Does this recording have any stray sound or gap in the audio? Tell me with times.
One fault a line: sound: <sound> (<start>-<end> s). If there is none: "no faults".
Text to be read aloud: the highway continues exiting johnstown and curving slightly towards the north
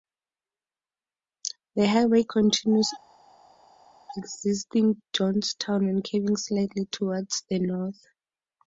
no faults